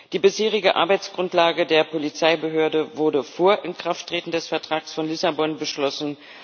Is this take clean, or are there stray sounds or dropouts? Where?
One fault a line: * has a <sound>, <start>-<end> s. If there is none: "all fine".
all fine